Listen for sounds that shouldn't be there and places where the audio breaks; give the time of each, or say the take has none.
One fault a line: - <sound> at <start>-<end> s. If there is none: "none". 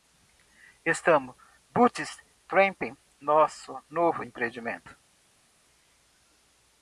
none